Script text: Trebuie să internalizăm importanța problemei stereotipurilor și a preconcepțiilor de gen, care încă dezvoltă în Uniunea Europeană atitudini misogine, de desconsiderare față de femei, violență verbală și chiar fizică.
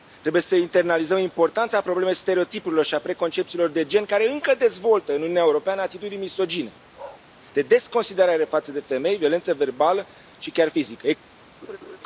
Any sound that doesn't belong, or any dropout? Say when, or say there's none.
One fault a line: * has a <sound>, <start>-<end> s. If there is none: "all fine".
* has a bark, 6.9-7.2 s
* has a laugh, 11.6-12.0 s